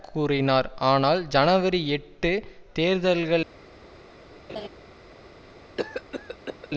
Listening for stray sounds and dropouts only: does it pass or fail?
fail